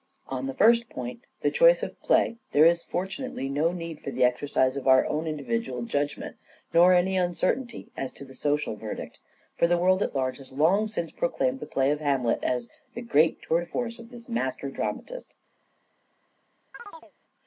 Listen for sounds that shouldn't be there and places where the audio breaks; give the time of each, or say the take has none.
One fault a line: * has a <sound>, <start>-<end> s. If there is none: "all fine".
* has a chirp, 16.7-17.1 s